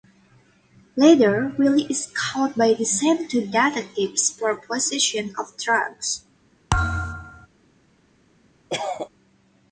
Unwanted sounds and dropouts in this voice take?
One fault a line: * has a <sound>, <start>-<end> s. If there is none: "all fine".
* has a thud, 6.7-7.5 s
* has a cough, 8.7-9.1 s